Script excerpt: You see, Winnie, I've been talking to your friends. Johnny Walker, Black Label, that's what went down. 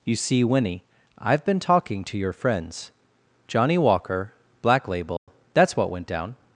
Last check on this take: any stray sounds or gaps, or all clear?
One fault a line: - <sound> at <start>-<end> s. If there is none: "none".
- dropout at 5.2-5.3 s